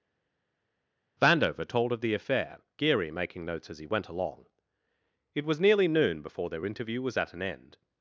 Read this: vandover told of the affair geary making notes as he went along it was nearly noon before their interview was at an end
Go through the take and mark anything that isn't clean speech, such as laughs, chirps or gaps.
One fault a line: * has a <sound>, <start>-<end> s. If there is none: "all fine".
all fine